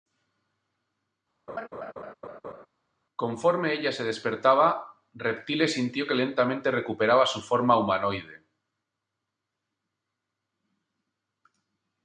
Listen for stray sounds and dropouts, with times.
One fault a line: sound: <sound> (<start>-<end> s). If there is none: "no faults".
sound: laugh (1.5-2.7 s)